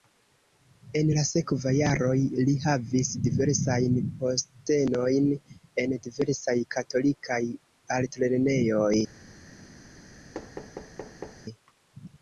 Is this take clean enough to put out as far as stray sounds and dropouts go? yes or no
no